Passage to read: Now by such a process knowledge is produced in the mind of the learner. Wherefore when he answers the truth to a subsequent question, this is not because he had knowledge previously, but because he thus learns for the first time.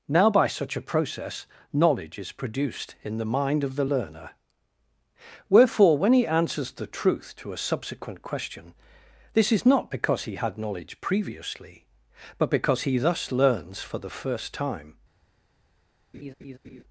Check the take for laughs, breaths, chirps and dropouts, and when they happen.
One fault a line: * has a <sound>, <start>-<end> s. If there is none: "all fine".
* has a laugh, 16.1-16.8 s